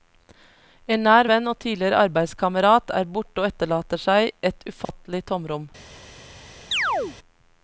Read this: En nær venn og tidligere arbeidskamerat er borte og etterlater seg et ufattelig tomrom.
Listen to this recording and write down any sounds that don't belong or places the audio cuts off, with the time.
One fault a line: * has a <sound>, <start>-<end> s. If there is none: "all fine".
* has a dropout, 4.8-4.9 s
* has a chirp, 6.7-7.2 s